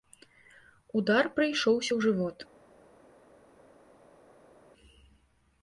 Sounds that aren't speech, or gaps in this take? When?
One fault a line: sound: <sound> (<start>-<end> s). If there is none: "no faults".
no faults